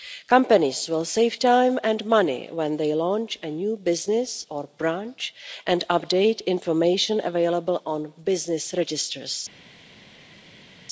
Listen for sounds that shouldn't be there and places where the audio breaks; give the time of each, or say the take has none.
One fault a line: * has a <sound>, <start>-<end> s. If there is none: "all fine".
all fine